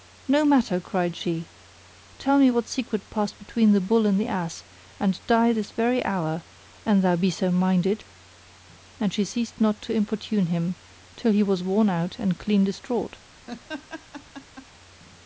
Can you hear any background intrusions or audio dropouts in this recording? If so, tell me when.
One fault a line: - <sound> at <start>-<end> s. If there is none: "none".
- laugh at 13.5-14.7 s